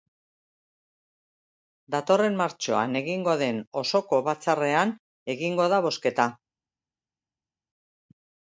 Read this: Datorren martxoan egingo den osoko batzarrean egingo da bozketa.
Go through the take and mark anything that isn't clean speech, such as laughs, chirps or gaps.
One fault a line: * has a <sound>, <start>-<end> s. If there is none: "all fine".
all fine